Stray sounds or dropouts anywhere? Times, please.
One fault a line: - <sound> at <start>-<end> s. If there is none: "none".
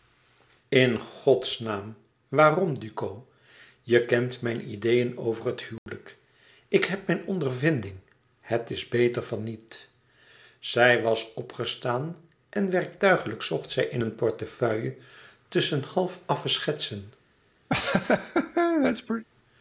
- dropout at 5.8-5.9 s
- laugh at 17.7-19.2 s